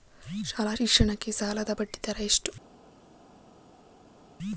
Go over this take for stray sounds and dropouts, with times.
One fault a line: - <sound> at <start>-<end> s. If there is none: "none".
none